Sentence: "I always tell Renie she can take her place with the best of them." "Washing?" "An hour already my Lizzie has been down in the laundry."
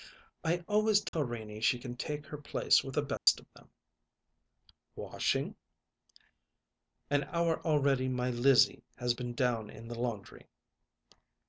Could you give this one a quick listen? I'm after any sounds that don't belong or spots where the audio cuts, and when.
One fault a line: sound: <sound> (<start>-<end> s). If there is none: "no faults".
sound: dropout (1.1-1.1 s)
sound: dropout (3.2-3.3 s)